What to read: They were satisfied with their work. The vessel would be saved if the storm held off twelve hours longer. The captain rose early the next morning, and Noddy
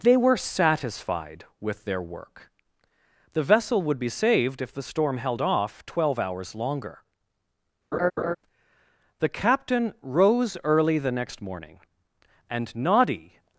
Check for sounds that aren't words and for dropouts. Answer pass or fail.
fail